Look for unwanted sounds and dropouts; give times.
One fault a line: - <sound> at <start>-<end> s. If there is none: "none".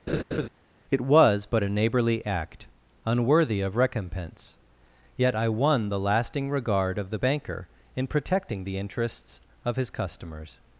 - laugh at 0.1-0.5 s